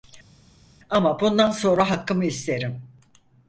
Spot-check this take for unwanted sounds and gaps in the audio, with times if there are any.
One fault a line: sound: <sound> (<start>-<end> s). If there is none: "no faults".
no faults